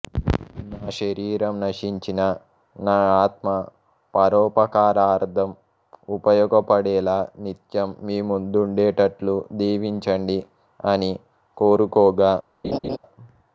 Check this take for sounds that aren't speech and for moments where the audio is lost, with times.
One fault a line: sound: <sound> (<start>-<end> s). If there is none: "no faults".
sound: laugh (12.6-13.0 s)